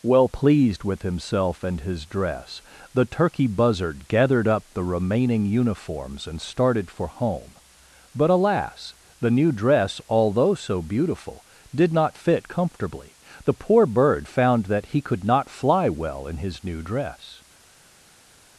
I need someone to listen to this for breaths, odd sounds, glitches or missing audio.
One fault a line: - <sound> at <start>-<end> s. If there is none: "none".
none